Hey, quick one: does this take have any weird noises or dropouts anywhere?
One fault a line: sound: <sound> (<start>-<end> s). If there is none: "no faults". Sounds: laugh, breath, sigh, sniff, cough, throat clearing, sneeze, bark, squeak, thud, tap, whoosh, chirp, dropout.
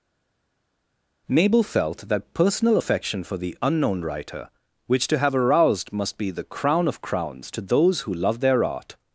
no faults